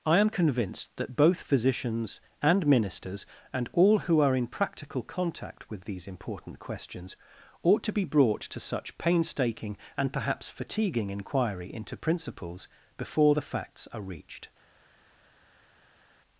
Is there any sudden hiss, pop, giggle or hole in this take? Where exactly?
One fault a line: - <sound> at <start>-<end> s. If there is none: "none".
none